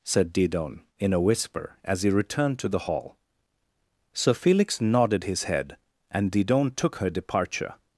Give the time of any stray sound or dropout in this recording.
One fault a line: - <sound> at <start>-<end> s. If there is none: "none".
none